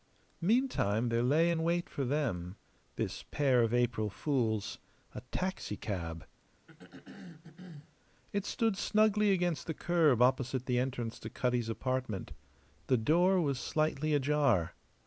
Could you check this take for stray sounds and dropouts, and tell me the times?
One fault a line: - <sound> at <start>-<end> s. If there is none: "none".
- throat clearing at 6.7-8.0 s